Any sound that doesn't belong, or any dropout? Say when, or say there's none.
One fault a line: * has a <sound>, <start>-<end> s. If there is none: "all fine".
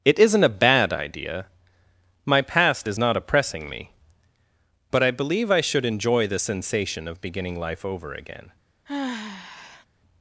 * has a sigh, 8.9-9.9 s